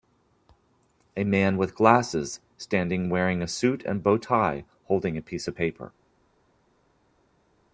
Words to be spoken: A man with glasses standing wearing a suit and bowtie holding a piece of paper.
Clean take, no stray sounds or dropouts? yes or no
yes